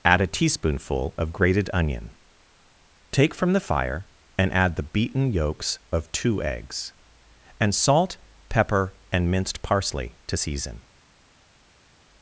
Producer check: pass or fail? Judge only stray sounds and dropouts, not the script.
pass